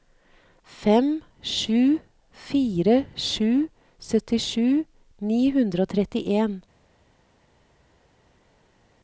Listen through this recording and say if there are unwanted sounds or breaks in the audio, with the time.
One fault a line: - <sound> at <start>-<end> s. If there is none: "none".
none